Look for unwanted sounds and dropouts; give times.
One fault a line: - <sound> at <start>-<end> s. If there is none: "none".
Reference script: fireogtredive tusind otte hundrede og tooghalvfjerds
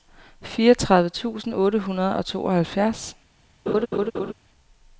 - laugh at 3.7-4.3 s